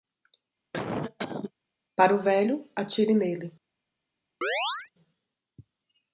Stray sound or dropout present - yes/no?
yes